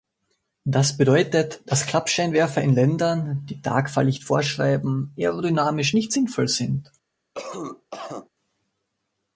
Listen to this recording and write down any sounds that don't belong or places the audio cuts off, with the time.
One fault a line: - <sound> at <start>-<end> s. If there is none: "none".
- cough at 7.3-8.3 s